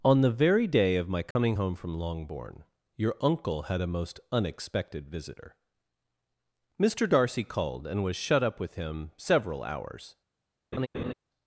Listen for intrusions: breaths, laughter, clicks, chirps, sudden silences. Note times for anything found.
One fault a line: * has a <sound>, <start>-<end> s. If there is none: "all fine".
* has a dropout, 1.3-1.4 s
* has a laugh, 10.7-11.1 s